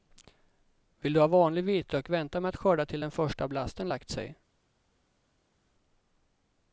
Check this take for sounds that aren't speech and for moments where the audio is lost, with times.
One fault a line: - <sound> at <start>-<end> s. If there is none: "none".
none